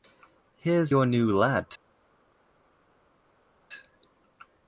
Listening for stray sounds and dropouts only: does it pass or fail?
pass